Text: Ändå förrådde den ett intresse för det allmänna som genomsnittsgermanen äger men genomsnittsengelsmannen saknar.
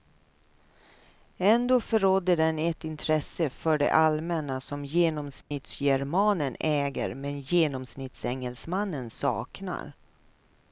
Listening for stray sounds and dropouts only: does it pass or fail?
fail